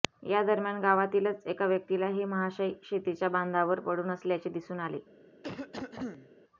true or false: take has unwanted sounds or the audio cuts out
true